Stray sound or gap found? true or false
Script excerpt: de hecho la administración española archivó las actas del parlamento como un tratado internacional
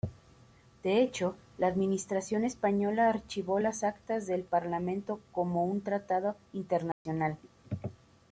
true